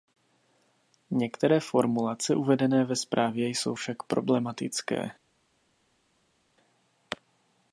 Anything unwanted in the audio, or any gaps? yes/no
no